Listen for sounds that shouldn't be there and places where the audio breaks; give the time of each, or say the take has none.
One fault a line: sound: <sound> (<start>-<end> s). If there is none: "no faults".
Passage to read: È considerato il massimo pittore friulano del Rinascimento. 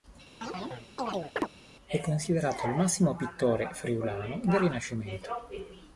sound: chirp (0.4-1.5 s)